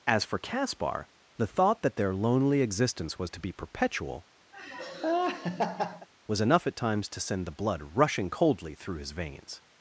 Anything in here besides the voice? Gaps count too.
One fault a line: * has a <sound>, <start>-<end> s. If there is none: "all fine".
* has a laugh, 4.5-6.1 s